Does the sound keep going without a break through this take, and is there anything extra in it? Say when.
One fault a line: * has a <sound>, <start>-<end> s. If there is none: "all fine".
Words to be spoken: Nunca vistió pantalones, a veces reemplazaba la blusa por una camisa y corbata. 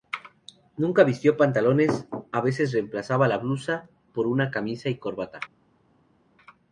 all fine